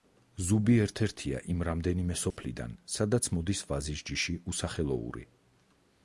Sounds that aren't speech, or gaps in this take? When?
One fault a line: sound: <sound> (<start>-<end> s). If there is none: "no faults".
sound: dropout (2.3-2.4 s)